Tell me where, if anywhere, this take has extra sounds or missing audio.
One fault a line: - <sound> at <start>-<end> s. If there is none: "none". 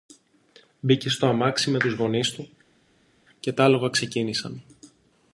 none